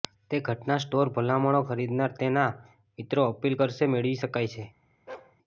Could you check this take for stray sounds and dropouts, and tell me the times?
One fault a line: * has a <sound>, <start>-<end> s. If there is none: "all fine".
* has a bark, 5.1-5.4 s